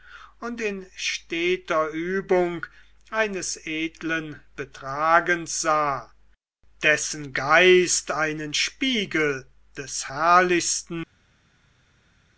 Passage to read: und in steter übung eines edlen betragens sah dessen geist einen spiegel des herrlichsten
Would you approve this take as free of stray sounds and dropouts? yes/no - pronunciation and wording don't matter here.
yes